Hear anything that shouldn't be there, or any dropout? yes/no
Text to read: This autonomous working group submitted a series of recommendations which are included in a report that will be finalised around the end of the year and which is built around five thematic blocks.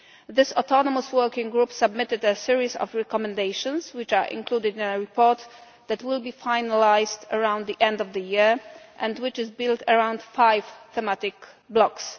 no